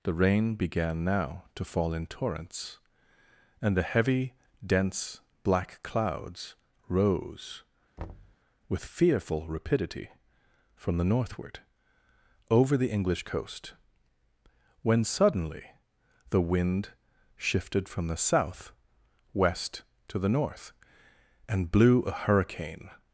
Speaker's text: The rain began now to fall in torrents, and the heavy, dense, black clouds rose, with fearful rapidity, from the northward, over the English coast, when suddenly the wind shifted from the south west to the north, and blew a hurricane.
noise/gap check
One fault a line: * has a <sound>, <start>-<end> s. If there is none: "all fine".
* has a thud, 8.0-8.4 s